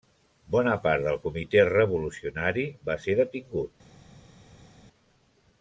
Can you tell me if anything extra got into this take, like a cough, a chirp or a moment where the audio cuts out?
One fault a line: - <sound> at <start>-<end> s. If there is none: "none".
none